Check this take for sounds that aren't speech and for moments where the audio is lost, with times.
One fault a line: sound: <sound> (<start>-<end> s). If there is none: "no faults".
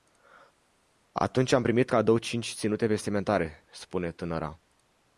no faults